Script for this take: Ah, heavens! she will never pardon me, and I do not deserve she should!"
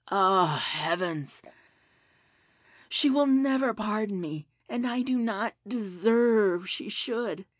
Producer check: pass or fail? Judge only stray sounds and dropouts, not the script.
pass